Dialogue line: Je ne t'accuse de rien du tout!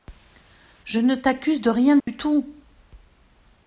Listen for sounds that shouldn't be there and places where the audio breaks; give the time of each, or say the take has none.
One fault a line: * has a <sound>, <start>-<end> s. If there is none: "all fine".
* has a dropout, 2.0-2.1 s